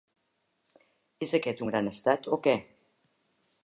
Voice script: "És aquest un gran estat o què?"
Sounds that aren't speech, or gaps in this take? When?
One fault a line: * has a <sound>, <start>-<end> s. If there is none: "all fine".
all fine